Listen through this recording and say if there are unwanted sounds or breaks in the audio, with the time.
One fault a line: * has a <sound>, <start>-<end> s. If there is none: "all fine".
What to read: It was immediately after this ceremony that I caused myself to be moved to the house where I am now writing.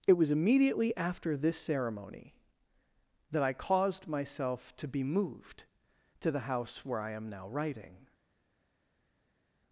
all fine